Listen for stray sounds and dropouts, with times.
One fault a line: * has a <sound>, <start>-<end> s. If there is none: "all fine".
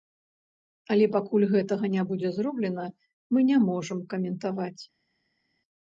all fine